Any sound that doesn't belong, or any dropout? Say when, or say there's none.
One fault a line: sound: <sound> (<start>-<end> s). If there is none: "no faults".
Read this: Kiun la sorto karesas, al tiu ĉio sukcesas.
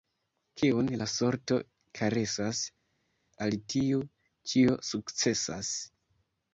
no faults